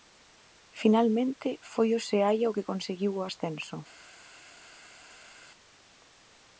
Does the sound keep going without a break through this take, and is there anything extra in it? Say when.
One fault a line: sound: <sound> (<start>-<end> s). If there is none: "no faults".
no faults